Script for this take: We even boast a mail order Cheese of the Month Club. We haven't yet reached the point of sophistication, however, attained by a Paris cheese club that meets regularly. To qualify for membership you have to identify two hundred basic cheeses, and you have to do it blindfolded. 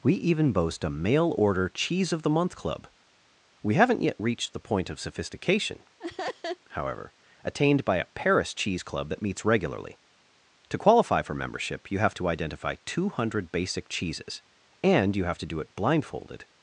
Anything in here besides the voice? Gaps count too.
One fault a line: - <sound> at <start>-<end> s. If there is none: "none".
- laugh at 6.0-6.6 s